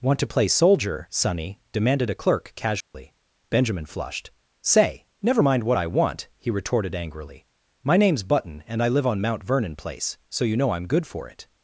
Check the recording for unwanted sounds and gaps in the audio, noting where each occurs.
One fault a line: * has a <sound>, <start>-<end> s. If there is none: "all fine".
* has a dropout, 2.8-2.9 s